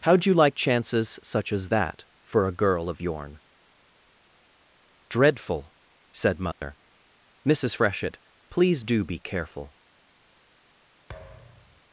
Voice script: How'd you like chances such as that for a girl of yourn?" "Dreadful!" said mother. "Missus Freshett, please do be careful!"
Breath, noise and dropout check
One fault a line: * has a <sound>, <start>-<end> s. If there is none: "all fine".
* has a dropout, 6.5-6.6 s
* has a thud, 11.1-11.8 s